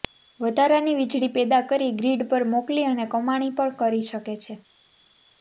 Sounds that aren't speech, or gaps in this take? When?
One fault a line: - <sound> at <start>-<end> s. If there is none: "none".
none